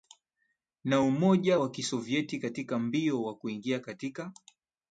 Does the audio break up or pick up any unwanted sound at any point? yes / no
no